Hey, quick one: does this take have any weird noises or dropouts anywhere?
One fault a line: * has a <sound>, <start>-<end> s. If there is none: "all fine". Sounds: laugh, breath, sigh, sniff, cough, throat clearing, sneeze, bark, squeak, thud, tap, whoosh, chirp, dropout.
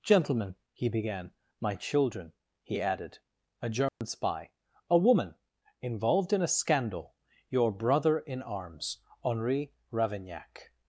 * has a dropout, 3.9-4.0 s